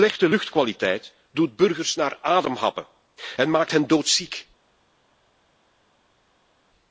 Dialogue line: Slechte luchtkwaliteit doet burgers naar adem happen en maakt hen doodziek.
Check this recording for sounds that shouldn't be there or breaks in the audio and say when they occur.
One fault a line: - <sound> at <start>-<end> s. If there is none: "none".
none